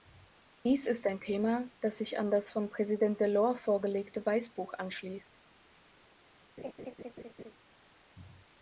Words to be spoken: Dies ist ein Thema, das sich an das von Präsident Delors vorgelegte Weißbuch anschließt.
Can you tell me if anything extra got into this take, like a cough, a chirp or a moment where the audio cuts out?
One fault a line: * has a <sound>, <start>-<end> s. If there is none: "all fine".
* has a laugh, 6.6-7.5 s